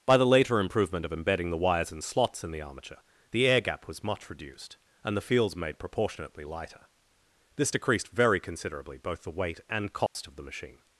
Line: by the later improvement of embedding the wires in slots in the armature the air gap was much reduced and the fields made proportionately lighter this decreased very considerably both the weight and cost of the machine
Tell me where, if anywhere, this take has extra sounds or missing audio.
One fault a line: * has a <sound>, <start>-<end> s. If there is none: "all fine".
* has a dropout, 10.1-10.2 s